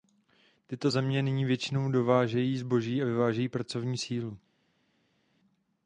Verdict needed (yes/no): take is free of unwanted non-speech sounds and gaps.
yes